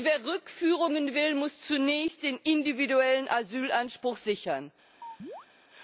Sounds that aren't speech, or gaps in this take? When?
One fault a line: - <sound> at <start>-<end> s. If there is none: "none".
- chirp at 5.0-5.5 s